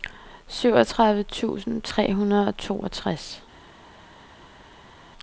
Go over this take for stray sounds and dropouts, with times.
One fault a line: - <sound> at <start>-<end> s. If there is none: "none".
none